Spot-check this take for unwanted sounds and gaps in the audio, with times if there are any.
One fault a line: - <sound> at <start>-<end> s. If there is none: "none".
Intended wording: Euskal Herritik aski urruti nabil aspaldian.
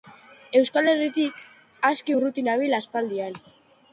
none